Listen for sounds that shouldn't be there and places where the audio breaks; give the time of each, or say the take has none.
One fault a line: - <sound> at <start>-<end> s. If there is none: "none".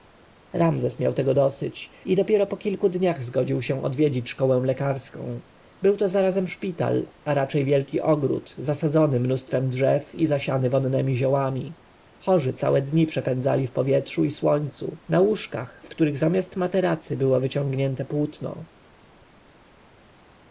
none